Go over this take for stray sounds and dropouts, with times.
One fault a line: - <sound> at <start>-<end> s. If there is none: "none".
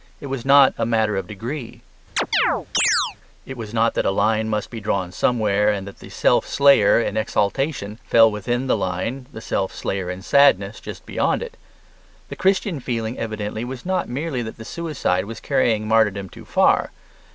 - chirp at 2.2-3.2 s